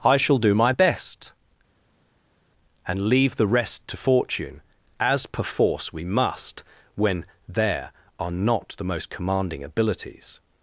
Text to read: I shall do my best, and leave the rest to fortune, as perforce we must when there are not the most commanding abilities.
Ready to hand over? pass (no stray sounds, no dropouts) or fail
pass